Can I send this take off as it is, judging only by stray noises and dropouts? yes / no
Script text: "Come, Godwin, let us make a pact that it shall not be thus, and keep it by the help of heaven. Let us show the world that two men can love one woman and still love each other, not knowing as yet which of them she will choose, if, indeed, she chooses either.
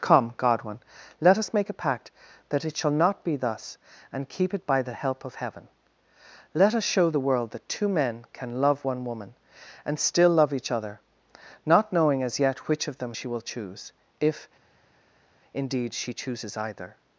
yes